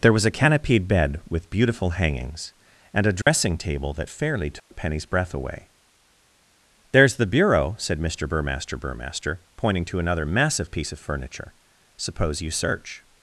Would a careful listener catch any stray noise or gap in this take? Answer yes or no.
yes